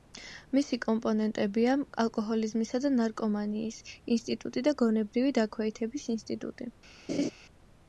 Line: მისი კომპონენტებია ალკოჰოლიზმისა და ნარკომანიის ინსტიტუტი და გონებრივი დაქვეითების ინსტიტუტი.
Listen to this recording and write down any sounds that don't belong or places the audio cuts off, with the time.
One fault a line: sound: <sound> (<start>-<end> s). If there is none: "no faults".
sound: laugh (7.1-7.3 s)